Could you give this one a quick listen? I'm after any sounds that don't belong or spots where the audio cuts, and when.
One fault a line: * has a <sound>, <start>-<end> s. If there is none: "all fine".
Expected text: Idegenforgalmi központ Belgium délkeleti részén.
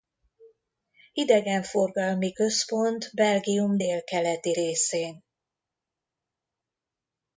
all fine